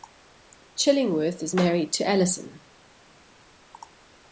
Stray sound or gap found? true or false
false